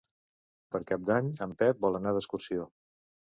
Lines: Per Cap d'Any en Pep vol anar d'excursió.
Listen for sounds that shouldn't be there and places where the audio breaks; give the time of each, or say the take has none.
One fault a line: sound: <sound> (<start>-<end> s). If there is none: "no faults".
no faults